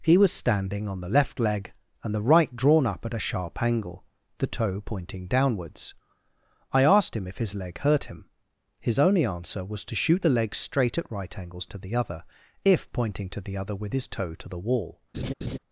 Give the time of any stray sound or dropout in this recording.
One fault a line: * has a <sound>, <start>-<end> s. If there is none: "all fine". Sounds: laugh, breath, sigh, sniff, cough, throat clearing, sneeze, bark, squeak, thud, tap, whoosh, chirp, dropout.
* has a laugh, 15.1-15.6 s